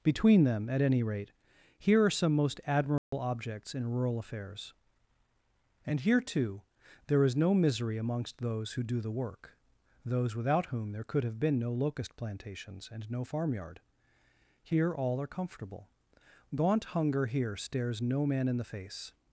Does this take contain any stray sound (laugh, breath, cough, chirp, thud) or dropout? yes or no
yes